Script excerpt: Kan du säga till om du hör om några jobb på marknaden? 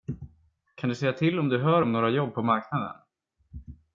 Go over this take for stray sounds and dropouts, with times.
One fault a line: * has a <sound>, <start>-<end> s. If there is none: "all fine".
all fine